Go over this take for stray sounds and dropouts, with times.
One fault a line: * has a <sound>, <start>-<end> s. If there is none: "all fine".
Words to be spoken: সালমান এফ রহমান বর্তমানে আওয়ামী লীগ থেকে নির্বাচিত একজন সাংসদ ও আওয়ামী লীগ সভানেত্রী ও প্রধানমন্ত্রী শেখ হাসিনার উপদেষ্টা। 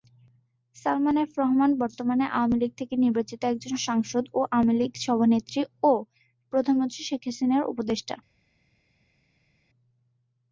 all fine